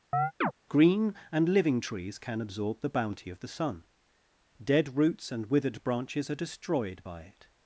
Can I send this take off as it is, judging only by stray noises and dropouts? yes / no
no